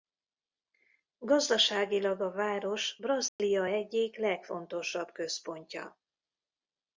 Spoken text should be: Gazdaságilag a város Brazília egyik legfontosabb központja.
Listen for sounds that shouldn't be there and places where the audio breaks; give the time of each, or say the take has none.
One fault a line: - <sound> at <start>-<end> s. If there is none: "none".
- dropout at 3.3-3.4 s